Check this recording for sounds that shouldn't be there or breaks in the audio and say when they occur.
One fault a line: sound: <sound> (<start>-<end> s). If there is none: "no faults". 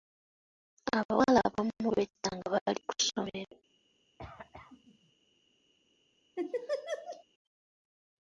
sound: cough (4.2-5.1 s)
sound: laugh (6.4-7.2 s)